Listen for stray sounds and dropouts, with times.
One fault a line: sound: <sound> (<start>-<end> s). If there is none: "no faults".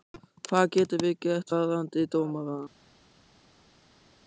no faults